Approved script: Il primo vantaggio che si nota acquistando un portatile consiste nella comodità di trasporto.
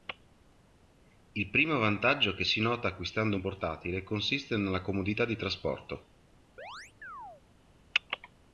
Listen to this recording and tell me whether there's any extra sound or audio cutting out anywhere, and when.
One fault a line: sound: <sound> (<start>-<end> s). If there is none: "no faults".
sound: chirp (6.6-7.4 s)